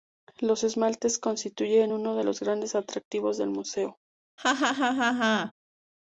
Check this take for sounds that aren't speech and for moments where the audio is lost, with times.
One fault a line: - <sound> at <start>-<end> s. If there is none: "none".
- laugh at 4.4-5.5 s